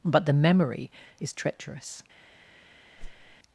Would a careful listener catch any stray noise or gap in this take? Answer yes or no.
yes